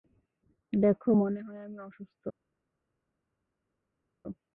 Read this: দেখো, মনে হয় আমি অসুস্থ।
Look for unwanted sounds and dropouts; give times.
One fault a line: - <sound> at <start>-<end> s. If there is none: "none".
none